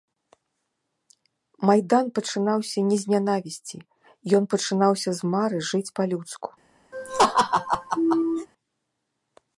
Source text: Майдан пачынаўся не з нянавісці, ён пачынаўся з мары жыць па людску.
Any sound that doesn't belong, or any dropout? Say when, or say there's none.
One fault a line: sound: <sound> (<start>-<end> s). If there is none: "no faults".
sound: laugh (6.9-8.5 s)